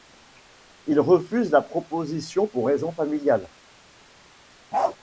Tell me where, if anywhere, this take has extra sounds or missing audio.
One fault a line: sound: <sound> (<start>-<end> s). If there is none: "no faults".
sound: bark (4.7-5.0 s)